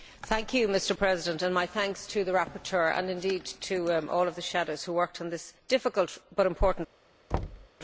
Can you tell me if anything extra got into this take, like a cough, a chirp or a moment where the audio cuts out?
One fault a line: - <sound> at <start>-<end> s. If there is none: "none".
- thud at 7.3-7.7 s